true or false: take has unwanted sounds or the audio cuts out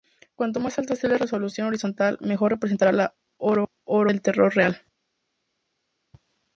false